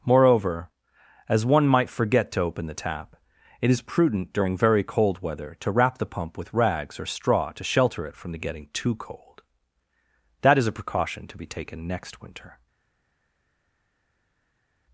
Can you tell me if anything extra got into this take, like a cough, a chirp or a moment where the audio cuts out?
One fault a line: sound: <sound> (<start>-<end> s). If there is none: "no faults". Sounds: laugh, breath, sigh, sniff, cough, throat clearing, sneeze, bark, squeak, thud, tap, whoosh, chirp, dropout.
no faults